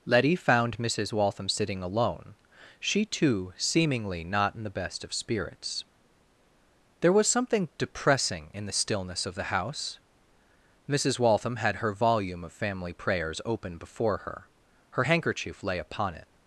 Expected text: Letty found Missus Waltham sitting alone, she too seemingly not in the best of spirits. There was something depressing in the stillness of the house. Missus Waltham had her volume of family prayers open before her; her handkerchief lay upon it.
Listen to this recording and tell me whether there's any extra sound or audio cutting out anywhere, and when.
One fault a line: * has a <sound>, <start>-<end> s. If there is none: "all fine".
all fine